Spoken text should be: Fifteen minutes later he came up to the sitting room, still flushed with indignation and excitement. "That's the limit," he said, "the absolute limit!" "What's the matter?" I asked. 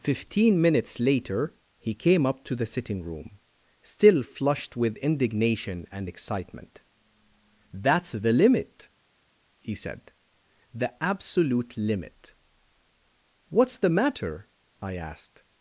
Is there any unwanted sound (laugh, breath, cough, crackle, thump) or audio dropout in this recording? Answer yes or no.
no